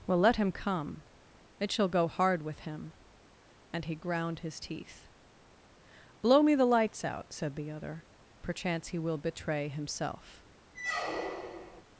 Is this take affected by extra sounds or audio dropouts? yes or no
yes